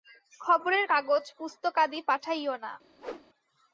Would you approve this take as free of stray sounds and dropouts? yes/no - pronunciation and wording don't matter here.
no